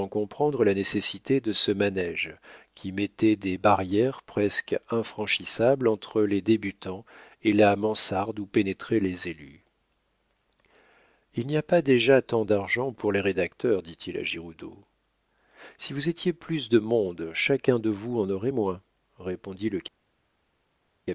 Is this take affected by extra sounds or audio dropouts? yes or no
no